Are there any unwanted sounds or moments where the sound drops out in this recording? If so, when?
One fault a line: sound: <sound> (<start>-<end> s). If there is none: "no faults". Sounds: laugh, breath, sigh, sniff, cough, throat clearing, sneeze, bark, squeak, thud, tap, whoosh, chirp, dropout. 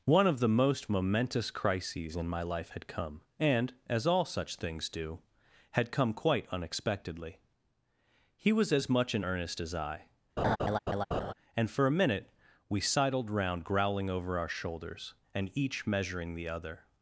sound: laugh (10.4-11.3 s)